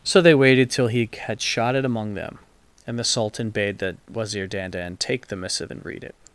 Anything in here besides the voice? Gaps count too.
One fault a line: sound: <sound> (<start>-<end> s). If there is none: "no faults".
no faults